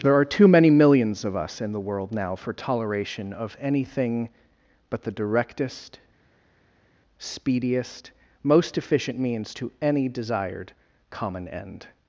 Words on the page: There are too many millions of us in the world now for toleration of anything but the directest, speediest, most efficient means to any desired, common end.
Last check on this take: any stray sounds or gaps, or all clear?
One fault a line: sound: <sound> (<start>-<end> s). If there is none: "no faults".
no faults